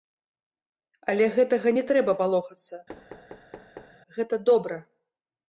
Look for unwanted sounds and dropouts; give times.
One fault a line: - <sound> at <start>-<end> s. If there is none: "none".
- thud at 2.9-4.0 s